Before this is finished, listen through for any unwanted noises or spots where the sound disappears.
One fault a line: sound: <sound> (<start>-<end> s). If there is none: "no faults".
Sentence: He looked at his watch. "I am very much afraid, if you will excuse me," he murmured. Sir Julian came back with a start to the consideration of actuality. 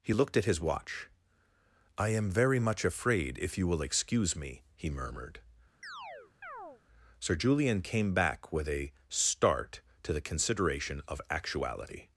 sound: chirp (5.8-6.8 s)